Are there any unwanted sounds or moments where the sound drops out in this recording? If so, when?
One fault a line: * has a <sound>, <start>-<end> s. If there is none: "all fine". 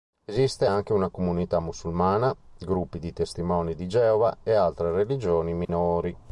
* has a dropout, 5.6-5.7 s